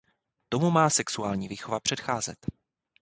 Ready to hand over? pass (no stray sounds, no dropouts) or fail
pass